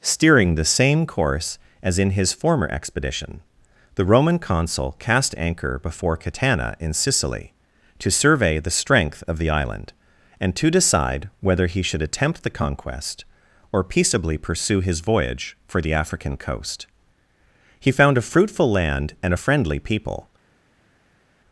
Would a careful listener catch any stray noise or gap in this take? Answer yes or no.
no